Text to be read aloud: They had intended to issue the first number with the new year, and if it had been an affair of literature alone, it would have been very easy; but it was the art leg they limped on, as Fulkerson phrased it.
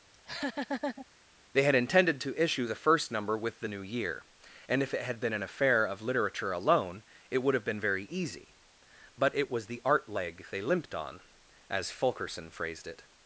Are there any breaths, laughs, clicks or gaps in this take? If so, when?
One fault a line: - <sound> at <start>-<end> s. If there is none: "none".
- laugh at 0.1-1.1 s